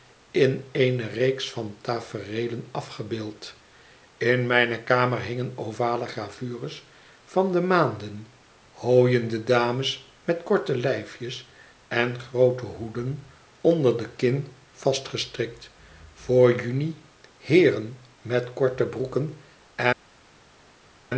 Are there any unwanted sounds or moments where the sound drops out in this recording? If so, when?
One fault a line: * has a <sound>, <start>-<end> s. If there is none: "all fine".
all fine